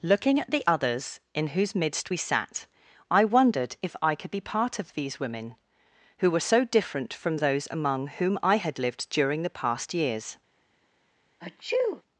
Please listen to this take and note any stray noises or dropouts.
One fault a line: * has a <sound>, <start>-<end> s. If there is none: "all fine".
* has a sneeze, 11.4-12.0 s